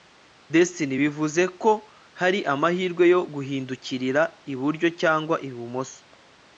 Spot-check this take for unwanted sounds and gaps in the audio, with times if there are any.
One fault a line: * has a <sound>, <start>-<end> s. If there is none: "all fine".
all fine